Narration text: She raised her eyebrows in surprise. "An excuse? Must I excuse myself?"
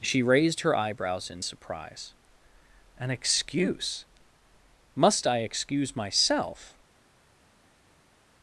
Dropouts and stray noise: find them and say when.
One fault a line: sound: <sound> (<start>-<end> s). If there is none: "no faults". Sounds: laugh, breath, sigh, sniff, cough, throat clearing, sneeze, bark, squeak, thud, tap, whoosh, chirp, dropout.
no faults